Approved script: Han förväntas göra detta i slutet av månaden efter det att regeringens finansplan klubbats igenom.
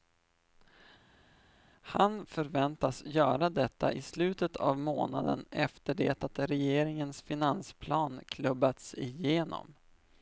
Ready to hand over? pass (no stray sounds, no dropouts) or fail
pass